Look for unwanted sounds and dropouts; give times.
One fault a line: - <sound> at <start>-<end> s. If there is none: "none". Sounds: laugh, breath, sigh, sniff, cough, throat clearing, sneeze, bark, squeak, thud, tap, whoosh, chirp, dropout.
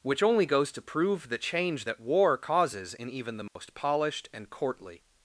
- dropout at 3.5-3.6 s